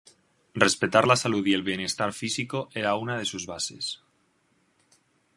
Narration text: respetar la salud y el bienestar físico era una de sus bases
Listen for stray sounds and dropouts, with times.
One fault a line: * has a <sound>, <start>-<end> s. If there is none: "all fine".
all fine